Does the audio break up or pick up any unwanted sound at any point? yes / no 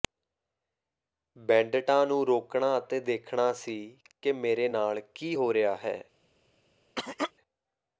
yes